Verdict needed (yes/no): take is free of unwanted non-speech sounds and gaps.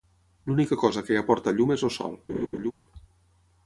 no